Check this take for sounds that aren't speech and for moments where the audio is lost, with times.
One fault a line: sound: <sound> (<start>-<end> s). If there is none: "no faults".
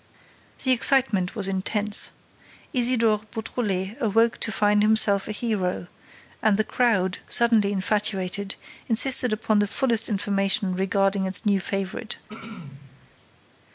sound: throat clearing (12.3-13.1 s)